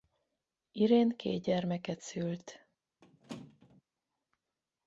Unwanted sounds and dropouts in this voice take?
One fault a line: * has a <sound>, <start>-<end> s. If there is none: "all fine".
* has a squeak, 3.0-3.8 s